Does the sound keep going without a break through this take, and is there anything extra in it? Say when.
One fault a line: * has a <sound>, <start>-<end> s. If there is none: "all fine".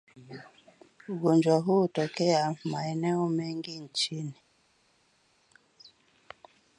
all fine